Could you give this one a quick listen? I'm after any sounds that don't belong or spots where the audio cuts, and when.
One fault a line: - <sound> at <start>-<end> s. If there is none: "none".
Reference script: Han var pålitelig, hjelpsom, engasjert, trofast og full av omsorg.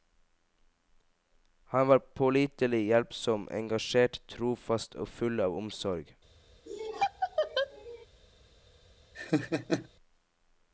- laugh at 6.7-8.1 s
- laugh at 9.1-9.9 s